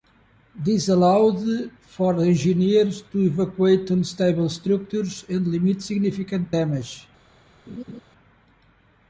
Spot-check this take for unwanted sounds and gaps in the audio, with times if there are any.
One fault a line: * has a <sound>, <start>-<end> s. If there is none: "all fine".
* has a laugh, 7.7-8.0 s